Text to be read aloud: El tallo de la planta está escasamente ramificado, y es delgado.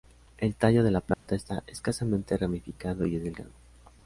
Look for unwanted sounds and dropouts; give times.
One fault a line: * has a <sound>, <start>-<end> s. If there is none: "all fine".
* has a dropout, 1.1-1.3 s